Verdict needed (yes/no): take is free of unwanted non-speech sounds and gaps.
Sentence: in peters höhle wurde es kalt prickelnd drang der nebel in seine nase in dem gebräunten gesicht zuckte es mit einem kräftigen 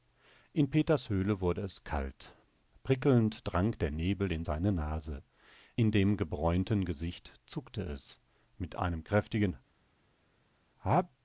yes